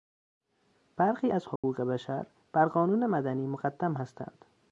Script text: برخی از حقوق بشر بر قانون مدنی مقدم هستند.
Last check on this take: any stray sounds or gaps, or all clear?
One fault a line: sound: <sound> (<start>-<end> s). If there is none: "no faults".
sound: dropout (1.6-1.6 s)